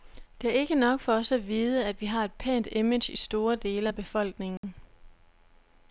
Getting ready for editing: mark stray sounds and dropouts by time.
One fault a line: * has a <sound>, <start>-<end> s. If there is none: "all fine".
* has a dropout, 4.6-4.6 s